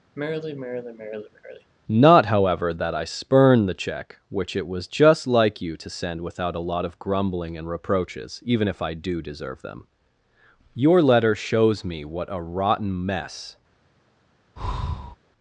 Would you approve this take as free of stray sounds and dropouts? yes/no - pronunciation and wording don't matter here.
no